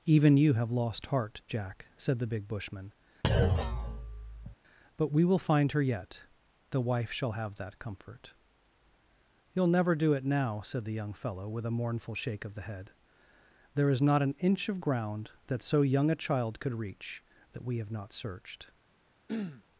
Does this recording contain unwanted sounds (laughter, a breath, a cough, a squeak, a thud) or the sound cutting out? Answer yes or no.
yes